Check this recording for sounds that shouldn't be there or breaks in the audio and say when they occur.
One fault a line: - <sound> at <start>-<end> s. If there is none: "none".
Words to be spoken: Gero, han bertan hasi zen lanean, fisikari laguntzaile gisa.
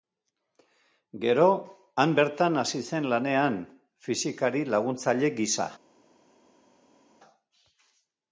none